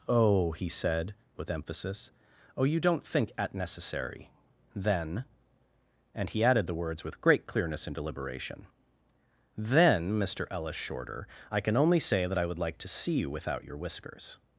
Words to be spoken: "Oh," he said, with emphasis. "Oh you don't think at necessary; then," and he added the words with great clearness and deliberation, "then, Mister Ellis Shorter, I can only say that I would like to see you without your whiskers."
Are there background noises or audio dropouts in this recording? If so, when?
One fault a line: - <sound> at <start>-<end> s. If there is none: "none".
none